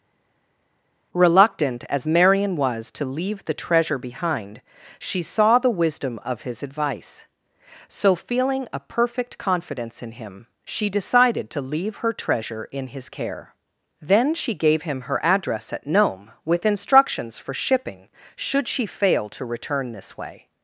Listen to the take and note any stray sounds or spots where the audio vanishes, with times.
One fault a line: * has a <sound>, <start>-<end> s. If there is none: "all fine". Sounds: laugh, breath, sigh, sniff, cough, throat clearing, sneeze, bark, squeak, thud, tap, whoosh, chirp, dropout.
all fine